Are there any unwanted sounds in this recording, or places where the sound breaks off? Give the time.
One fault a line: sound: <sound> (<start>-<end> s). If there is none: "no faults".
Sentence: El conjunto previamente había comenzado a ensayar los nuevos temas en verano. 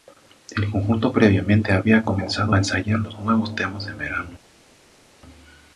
no faults